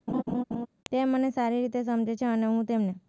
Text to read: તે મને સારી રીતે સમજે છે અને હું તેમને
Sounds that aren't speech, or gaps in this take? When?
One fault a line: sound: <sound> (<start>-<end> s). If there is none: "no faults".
sound: laugh (0.1-0.7 s)